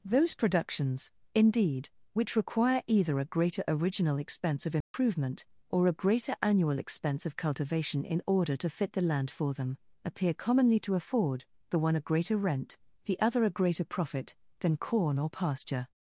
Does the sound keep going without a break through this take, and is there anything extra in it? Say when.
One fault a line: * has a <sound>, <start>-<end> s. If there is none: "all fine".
* has a dropout, 4.8-4.9 s